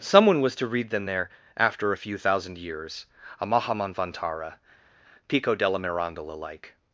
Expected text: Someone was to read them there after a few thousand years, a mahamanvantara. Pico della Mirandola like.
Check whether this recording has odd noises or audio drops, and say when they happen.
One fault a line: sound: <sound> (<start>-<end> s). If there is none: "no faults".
no faults